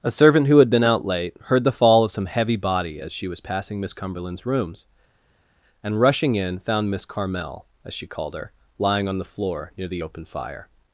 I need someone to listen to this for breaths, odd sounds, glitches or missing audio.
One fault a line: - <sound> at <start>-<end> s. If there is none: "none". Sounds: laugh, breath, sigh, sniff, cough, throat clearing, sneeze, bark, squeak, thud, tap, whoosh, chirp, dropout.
none